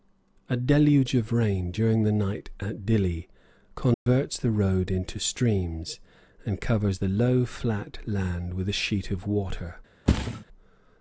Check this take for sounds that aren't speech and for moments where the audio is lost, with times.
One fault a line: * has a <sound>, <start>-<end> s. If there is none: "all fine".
* has a dropout, 3.9-4.1 s
* has a thud, 10.1-10.4 s